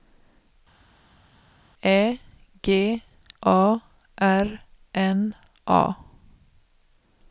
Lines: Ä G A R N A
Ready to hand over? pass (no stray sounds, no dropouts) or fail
pass